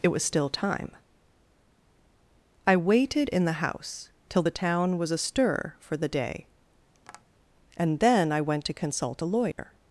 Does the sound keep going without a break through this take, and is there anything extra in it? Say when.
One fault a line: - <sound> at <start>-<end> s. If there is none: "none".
- tap at 6.9-7.2 s
- dropout at 9.5-9.6 s